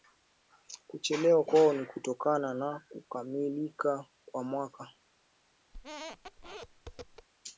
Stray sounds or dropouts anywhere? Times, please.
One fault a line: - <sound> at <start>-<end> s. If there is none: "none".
- squeak at 5.7-7.3 s